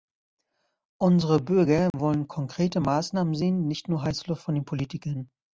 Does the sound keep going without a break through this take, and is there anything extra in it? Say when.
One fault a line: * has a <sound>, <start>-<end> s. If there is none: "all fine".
* has a dropout, 1.9-1.9 s